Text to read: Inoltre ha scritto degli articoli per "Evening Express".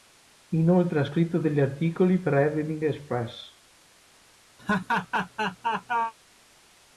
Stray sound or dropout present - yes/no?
yes